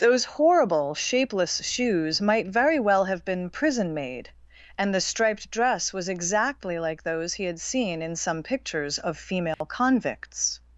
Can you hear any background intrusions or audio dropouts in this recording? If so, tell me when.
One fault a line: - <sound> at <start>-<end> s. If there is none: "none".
- dropout at 9.5-9.6 s